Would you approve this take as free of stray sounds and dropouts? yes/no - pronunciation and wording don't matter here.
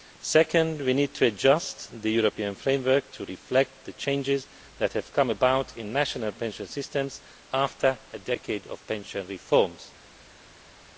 yes